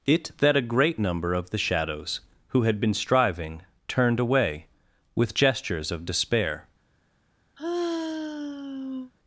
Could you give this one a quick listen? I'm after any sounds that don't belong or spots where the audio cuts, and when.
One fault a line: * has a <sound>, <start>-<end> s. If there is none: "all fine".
* has a sigh, 7.6-9.1 s